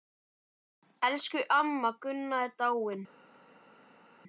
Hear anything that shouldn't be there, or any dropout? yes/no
no